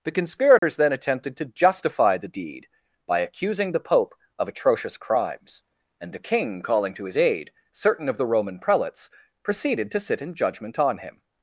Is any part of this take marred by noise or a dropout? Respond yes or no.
yes